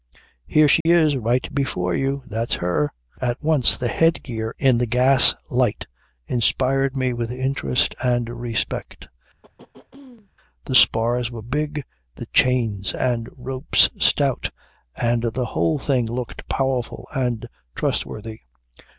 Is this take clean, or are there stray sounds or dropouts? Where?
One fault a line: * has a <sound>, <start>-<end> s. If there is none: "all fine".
* has a dropout, 0.8-0.9 s
* has a throat clearing, 9.4-10.3 s